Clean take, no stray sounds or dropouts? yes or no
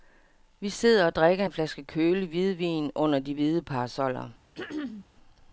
no